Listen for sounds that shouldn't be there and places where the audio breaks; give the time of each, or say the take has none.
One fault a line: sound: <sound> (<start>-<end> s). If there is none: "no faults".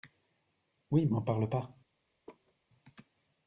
sound: laugh (2.3-2.5 s)